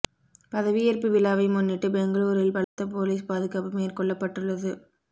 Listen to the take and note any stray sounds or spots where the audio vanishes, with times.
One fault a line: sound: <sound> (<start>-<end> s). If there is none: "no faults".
sound: dropout (2.6-2.8 s)